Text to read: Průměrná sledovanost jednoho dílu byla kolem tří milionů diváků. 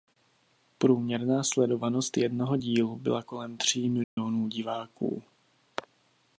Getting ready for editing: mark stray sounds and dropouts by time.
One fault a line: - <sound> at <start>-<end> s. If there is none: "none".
- dropout at 4.0-4.2 s